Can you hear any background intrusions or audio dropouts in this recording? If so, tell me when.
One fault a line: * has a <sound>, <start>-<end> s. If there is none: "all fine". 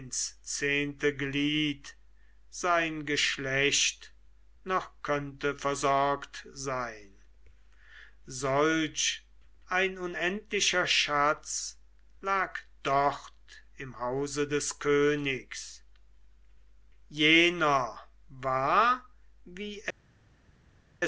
all fine